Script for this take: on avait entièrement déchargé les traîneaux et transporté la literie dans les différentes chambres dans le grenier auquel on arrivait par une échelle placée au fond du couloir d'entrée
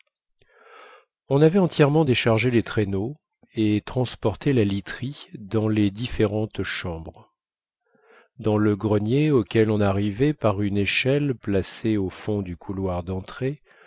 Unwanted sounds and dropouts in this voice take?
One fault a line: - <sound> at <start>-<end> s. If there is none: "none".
none